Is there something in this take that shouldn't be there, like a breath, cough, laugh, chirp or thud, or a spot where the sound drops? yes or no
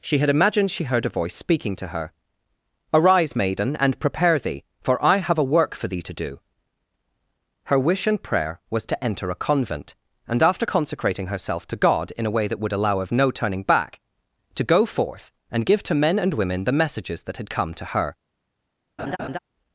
yes